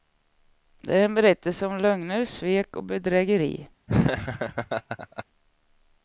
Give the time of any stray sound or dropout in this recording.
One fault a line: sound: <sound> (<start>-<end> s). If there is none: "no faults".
sound: laugh (3.9-5.2 s)